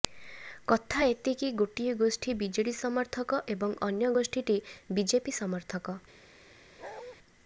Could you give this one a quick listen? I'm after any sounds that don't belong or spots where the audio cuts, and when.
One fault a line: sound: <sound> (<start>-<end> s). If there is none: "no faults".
sound: bark (6.8-7.2 s)